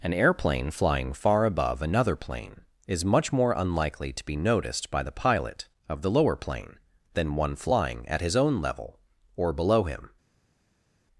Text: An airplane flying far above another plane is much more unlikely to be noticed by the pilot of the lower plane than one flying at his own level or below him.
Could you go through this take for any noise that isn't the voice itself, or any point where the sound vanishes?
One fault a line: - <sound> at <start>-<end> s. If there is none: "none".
none